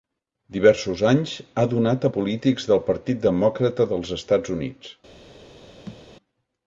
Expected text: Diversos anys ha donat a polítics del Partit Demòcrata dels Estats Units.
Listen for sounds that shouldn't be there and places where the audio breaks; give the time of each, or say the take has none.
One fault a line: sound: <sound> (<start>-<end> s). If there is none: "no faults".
sound: thud (5.9-6.0 s)